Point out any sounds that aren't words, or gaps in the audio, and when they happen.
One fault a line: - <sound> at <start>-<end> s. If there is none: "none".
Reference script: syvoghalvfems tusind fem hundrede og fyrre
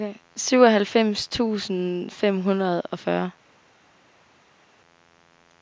none